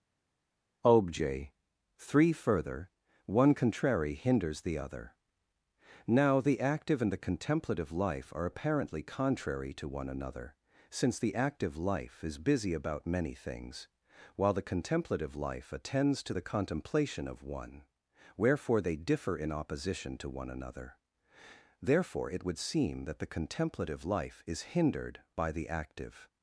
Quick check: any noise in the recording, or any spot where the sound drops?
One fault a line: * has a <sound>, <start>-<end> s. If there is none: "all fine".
all fine